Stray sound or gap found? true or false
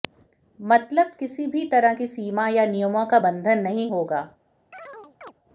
true